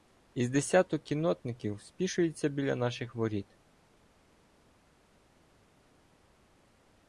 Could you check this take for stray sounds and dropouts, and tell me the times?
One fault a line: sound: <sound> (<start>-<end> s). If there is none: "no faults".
no faults